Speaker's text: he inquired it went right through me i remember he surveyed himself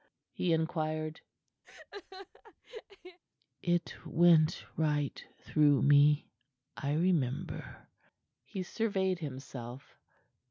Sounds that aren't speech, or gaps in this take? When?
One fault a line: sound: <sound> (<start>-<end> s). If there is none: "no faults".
sound: laugh (1.6-3.2 s)